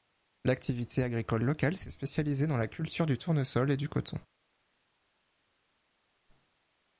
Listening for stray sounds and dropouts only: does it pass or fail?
pass